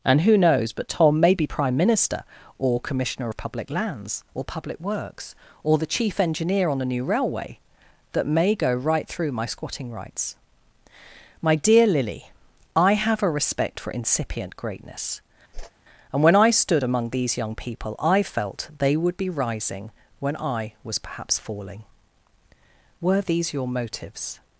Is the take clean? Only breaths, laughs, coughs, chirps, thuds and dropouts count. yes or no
no